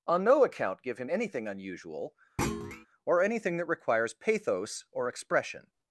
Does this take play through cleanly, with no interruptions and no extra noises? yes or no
no